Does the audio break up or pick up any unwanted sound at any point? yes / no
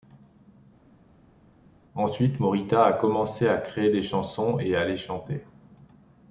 no